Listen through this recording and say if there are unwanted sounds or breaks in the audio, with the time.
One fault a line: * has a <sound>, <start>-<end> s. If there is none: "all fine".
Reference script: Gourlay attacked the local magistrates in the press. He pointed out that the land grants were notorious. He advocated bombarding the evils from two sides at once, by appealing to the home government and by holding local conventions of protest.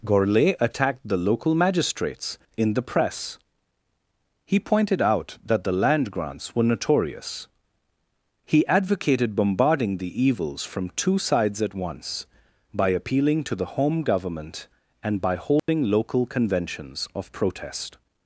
* has a dropout, 15.6-15.7 s